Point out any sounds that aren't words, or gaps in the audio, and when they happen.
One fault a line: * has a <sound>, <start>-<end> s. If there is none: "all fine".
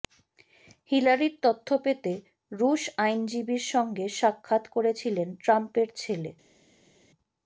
all fine